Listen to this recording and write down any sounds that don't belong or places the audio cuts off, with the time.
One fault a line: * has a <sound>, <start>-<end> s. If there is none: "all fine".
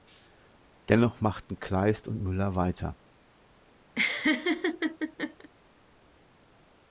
* has a laugh, 3.9-5.5 s